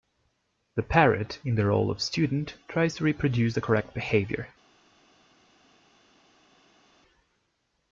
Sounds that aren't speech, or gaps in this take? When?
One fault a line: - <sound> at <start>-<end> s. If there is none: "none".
none